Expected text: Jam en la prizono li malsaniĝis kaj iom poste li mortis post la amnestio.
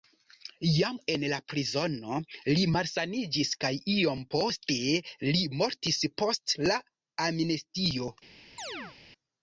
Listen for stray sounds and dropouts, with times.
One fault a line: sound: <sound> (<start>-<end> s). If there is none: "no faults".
sound: chirp (8.6-9.0 s)